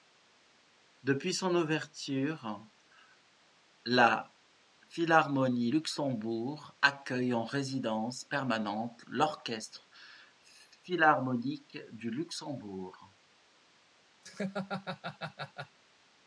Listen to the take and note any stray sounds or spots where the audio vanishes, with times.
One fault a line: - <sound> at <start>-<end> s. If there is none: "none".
- laugh at 14.2-15.8 s